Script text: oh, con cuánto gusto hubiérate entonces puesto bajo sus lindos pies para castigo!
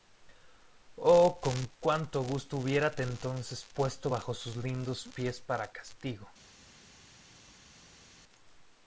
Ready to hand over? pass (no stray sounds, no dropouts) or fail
pass